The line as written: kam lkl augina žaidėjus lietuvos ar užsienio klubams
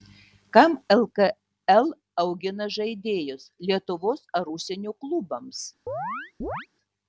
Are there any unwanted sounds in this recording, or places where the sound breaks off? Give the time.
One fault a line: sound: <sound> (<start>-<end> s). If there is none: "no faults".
sound: chirp (5.9-6.7 s)